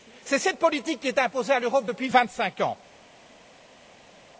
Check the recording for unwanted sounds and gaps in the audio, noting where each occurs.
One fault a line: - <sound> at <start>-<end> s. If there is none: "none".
none